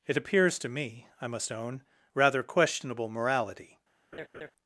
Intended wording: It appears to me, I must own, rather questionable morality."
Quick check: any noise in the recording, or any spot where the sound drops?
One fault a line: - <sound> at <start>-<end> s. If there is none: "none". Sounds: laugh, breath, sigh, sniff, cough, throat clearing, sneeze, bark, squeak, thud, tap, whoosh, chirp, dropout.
- laugh at 4.1-4.5 s